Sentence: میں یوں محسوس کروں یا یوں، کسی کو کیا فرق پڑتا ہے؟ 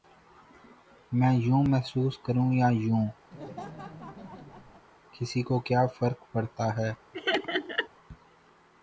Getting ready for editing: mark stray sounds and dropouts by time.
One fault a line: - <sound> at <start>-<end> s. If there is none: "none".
- laugh at 3.3-4.9 s
- laugh at 7.1-7.9 s